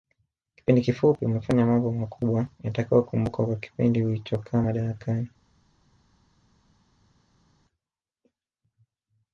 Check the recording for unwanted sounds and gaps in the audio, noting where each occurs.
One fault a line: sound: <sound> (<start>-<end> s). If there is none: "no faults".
no faults